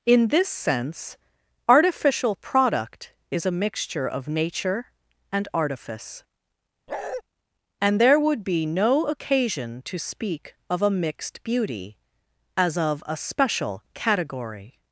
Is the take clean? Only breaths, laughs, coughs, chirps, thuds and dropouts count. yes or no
no